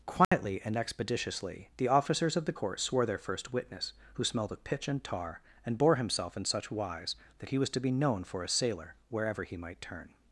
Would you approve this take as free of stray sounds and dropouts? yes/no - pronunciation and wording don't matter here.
no